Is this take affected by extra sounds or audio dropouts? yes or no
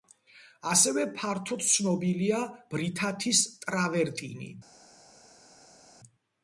no